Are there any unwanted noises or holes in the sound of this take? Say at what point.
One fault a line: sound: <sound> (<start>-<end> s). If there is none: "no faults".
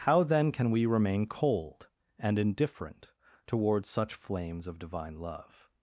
no faults